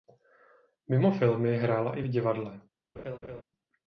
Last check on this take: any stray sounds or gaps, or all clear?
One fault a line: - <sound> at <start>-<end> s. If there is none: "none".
- laugh at 3.0-3.4 s